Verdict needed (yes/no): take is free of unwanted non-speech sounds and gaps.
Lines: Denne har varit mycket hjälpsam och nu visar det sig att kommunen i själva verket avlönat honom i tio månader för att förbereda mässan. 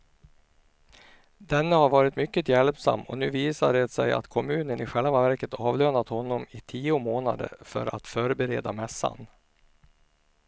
yes